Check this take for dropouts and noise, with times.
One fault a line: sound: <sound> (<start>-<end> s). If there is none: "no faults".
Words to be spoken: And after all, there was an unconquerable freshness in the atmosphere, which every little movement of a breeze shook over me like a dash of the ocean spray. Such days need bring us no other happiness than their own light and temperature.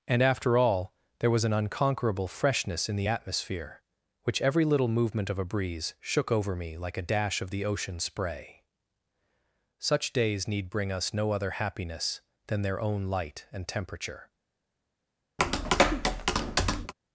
sound: tap (15.4-16.9 s)